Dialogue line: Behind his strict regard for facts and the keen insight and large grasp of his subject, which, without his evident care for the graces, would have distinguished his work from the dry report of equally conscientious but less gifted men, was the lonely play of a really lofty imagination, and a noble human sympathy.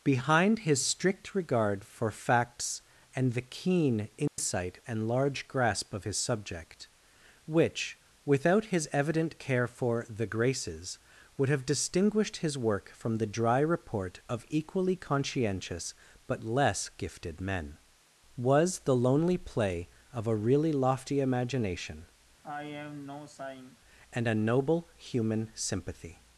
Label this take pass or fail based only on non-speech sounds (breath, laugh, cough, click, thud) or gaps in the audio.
fail